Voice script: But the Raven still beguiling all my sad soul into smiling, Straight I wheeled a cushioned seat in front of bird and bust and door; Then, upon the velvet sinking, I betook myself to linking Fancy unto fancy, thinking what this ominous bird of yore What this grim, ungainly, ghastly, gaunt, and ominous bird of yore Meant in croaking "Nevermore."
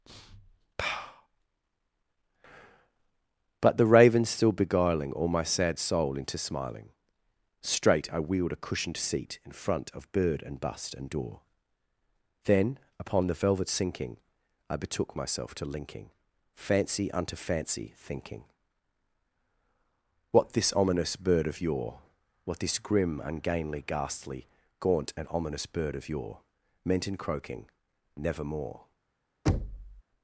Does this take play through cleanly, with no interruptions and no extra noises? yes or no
no